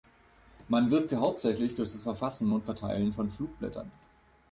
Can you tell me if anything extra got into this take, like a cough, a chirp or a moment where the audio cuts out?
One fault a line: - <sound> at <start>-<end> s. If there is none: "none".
none